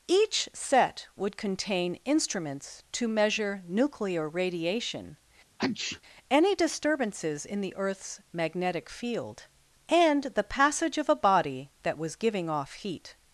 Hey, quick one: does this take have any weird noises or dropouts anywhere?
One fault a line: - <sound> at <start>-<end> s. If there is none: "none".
- sneeze at 5.6-6.0 s